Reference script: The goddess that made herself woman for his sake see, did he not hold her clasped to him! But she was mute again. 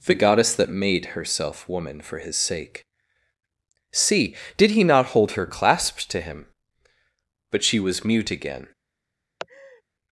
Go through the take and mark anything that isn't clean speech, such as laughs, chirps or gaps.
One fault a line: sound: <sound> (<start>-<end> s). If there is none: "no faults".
sound: laugh (9.4-9.8 s)